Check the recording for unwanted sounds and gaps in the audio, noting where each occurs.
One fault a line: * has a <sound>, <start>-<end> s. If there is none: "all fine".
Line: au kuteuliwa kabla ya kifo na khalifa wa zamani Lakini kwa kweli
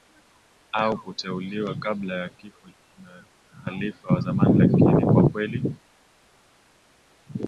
all fine